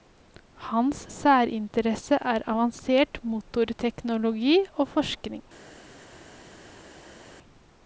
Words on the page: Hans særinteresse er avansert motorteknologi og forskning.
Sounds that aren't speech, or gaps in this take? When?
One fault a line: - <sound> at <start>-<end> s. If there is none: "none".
none